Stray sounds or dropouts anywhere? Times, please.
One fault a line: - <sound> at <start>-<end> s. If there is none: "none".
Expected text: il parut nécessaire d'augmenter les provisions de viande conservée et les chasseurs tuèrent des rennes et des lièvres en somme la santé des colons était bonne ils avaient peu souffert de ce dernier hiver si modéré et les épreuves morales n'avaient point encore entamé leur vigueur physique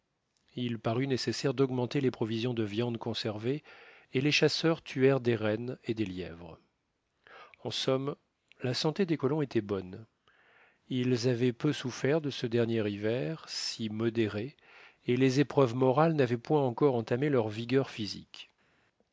none